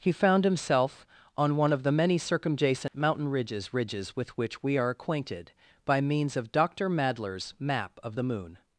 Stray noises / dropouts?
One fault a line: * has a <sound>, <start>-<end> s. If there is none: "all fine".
* has a dropout, 2.9-2.9 s